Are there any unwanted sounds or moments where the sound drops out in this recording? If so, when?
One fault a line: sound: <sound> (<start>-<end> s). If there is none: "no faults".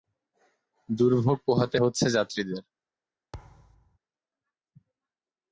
sound: thud (3.3-4.0 s)